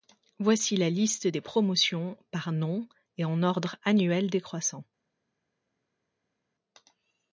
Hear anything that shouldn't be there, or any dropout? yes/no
no